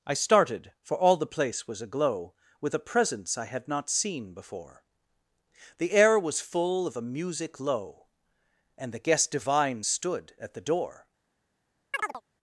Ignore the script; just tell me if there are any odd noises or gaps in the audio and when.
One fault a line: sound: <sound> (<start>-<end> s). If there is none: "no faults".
sound: chirp (11.9-12.2 s)